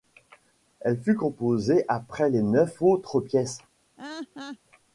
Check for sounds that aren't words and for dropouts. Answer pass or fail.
fail